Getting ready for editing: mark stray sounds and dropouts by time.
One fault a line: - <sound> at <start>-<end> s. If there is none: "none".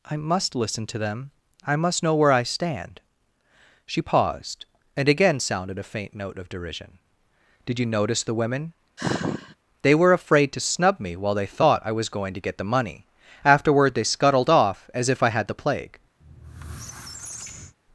- sigh at 9.0-9.6 s
- squeak at 16.2-17.8 s